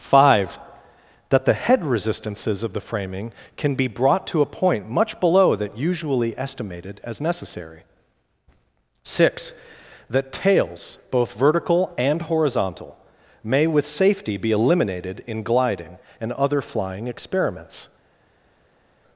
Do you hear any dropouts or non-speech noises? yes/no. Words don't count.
no